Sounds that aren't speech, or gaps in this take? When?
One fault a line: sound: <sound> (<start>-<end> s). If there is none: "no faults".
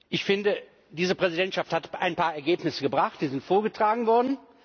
no faults